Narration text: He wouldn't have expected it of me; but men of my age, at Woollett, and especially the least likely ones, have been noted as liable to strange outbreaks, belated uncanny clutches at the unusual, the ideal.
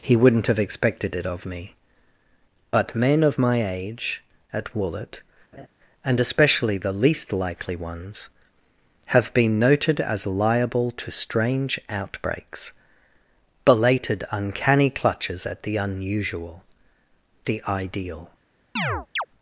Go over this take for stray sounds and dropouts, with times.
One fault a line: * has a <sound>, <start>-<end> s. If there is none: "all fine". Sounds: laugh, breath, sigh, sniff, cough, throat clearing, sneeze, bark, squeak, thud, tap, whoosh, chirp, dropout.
* has a laugh, 5.5-5.7 s
* has a chirp, 18.8-19.3 s